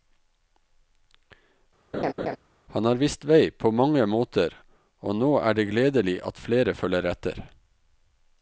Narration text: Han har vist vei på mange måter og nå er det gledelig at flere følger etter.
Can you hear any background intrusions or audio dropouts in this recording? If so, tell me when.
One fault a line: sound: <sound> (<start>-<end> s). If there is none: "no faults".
sound: laugh (1.9-2.4 s)